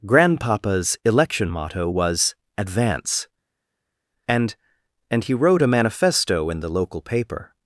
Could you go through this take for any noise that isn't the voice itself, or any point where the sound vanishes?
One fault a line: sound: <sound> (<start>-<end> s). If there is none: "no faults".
no faults